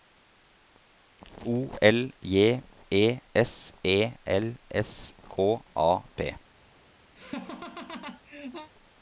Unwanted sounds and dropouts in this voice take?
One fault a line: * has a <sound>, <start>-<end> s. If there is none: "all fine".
* has a laugh, 7.2-8.7 s